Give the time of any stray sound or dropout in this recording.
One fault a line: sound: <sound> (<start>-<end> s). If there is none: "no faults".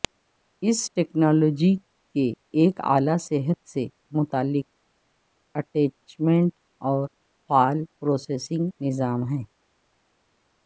no faults